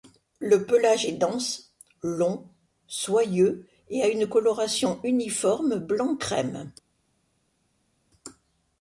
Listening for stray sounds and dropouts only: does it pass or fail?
pass